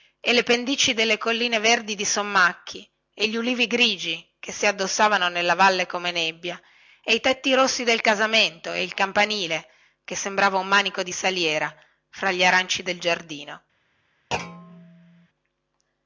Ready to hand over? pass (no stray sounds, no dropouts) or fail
fail